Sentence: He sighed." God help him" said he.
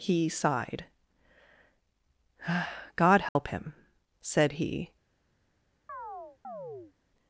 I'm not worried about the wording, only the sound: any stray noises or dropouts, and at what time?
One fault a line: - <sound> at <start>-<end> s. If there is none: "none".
- dropout at 3.3-3.4 s
- chirp at 5.9-6.9 s